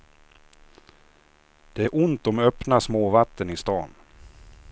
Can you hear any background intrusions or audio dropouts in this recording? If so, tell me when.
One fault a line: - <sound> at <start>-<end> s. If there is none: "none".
none